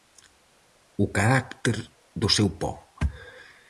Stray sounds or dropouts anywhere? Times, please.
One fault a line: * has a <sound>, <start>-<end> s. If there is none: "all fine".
all fine